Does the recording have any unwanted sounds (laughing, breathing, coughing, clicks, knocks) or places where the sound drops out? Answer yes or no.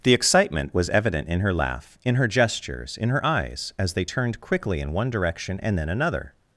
no